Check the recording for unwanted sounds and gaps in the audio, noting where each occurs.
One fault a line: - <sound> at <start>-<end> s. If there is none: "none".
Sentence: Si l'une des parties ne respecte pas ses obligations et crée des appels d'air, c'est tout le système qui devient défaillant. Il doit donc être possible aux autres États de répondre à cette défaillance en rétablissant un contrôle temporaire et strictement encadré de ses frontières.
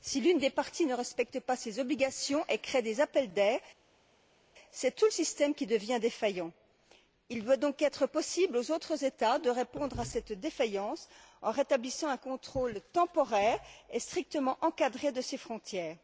none